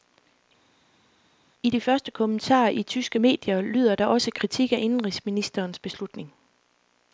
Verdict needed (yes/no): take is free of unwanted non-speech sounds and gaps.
yes